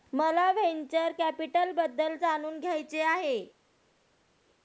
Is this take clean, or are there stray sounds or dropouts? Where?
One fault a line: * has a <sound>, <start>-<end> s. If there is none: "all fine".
all fine